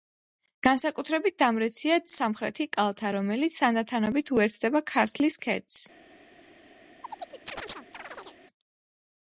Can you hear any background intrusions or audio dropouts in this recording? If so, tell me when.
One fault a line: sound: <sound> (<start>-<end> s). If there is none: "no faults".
sound: chirp (7.0-8.4 s)